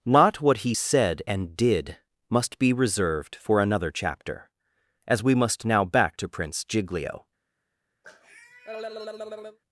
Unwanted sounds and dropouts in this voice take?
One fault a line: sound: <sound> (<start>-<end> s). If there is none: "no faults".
sound: cough (8.0-9.6 s)